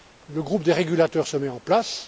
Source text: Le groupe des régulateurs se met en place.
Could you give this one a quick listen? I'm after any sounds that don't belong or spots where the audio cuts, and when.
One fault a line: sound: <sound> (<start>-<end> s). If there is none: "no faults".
no faults